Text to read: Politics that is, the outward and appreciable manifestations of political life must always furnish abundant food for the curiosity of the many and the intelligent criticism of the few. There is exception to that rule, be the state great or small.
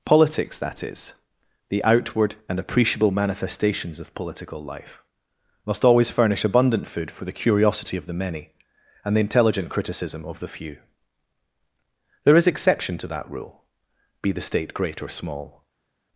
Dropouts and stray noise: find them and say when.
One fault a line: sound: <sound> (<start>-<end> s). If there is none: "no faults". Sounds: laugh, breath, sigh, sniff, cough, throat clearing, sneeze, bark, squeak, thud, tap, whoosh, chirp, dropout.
no faults